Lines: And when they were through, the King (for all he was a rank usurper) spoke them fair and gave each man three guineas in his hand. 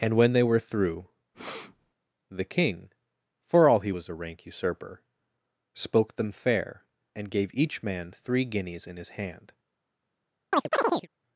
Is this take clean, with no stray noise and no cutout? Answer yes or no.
no